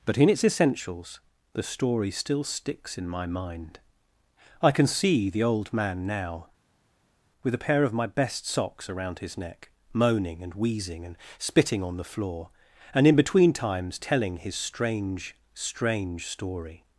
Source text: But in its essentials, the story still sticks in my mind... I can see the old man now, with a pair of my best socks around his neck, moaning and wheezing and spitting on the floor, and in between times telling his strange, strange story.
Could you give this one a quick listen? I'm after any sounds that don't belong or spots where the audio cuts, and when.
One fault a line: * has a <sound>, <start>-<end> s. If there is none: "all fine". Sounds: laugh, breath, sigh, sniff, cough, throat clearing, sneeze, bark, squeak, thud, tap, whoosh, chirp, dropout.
all fine